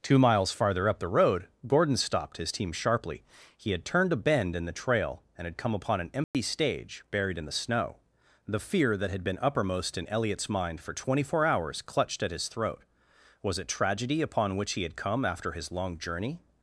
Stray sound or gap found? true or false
true